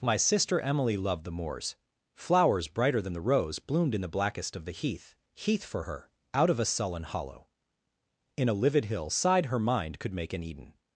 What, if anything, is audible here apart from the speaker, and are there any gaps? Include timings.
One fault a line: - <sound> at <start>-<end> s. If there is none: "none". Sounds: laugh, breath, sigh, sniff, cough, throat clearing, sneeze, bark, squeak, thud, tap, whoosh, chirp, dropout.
none